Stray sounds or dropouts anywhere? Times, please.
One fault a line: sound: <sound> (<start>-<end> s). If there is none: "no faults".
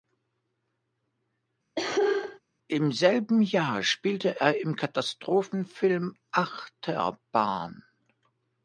sound: cough (1.8-2.4 s)